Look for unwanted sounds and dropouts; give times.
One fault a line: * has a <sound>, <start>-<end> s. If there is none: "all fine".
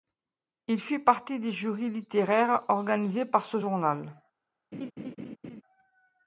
* has a laugh, 4.7-5.6 s